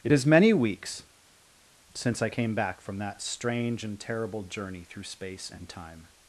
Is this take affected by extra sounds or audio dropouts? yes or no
no